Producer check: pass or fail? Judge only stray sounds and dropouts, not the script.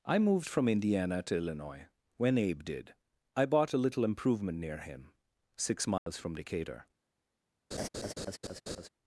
fail